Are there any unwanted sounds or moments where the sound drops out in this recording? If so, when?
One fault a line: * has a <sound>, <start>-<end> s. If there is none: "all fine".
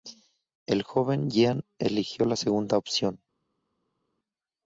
all fine